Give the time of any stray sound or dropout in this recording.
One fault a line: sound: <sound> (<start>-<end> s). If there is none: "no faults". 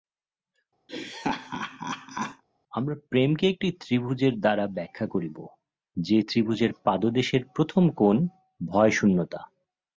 sound: laugh (0.9-2.4 s)